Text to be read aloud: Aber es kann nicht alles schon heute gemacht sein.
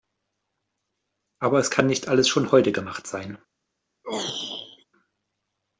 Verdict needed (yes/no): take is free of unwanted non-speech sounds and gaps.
no